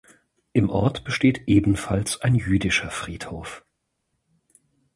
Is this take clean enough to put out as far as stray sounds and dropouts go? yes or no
yes